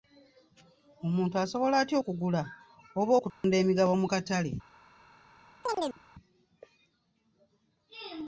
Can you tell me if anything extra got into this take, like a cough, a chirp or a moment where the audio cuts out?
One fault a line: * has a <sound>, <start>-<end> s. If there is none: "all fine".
* has a dropout, 3.3-3.4 s
* has a chirp, 5.6-6.0 s